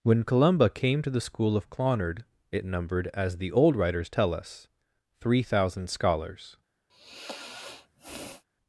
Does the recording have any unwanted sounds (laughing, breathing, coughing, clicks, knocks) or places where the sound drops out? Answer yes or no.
yes